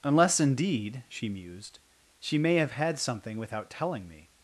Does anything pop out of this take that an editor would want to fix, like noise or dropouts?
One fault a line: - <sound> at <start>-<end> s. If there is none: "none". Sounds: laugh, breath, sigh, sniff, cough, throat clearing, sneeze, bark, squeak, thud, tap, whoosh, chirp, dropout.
none